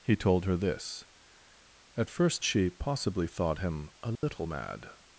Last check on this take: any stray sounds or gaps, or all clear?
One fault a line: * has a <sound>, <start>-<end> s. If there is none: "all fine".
* has a dropout, 4.2-4.2 s